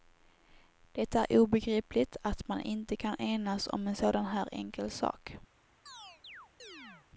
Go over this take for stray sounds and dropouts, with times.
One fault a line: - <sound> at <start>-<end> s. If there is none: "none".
- chirp at 5.9-7.1 s